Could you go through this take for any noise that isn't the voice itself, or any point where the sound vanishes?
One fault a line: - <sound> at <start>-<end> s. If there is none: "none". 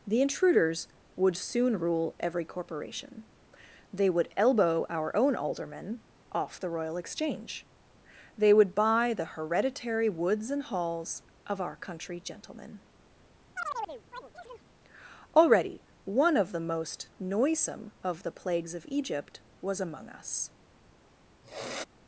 - chirp at 13.6-14.7 s
- sniff at 21.4-21.8 s